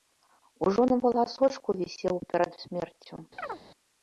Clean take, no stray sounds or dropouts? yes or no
no